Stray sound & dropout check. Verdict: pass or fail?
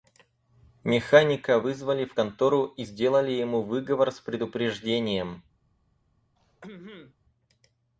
fail